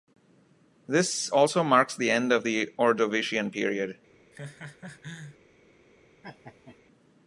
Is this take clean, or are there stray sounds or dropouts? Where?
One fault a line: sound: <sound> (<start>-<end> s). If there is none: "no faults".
sound: laugh (4.3-5.4 s)
sound: laugh (6.2-6.8 s)